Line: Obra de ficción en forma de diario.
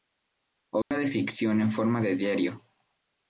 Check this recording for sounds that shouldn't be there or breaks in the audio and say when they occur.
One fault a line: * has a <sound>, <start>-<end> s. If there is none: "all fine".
* has a dropout, 0.8-0.9 s